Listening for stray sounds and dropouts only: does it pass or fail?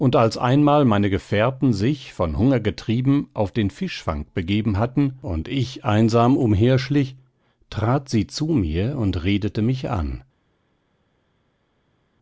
pass